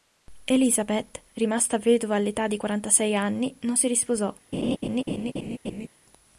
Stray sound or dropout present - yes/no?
yes